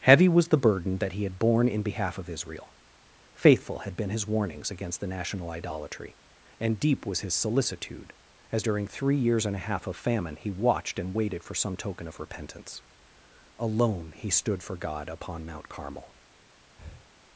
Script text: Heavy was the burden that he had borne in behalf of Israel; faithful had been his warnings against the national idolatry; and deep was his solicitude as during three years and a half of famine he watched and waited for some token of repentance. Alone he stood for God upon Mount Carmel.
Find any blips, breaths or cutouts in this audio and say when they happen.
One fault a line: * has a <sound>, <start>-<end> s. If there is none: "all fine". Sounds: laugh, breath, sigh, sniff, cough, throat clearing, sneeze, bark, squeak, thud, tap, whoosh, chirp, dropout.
* has a breath, 16.8-17.1 s